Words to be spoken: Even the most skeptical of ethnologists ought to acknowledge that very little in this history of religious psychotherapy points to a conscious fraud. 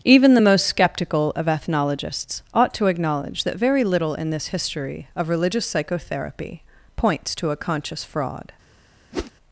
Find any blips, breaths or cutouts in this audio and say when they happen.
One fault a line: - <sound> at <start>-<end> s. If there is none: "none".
- whoosh at 9.1-9.3 s